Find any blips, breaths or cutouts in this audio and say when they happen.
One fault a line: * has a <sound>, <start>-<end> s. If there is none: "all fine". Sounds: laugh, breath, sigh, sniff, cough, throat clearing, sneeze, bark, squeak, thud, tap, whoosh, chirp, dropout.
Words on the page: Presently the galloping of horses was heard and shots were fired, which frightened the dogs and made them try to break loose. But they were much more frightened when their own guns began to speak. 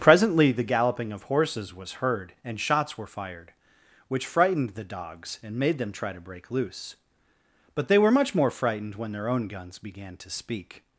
all fine